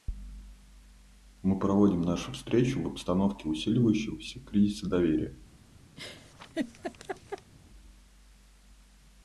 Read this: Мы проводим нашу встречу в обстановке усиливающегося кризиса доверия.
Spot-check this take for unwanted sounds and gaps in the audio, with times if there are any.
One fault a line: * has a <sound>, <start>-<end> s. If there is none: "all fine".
* has a laugh, 6.0-7.5 s